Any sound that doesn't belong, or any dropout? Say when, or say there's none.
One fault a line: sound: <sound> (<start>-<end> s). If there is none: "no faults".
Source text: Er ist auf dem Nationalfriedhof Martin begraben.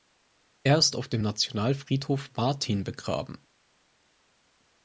no faults